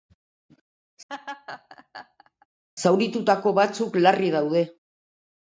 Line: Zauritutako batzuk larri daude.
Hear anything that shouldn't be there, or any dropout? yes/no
yes